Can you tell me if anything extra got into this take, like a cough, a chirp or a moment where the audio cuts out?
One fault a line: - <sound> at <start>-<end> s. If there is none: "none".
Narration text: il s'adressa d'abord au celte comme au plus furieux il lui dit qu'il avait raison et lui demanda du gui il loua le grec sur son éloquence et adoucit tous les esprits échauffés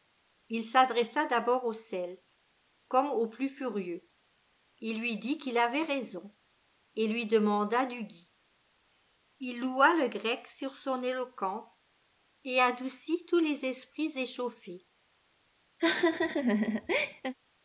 - laugh at 15.8-17.3 s